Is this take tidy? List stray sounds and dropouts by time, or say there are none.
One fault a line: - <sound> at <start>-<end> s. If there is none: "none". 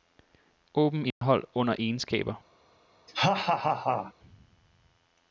- dropout at 1.1-1.2 s
- laugh at 3.1-4.1 s